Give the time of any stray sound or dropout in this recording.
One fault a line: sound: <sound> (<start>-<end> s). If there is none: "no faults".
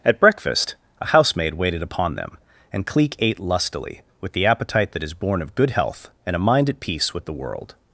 no faults